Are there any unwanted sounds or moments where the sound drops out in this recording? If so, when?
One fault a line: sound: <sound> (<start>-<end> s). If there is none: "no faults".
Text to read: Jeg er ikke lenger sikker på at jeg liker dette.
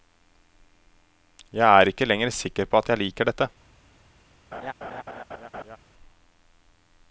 sound: laugh (4.5-5.8 s)